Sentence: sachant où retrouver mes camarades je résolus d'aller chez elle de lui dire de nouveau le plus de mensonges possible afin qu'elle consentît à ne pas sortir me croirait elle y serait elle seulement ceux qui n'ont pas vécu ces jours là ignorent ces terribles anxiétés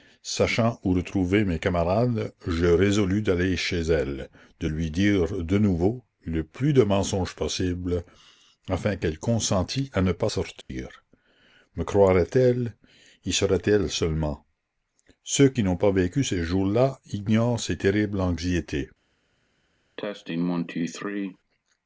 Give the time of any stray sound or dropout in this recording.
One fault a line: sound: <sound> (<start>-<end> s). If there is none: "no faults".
sound: dropout (10.6-10.7 s)
sound: cough (20.0-21.4 s)